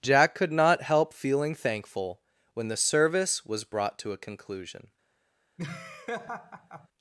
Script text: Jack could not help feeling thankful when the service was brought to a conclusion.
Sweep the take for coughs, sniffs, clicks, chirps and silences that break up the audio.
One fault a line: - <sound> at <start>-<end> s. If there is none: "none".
- laugh at 5.6-6.9 s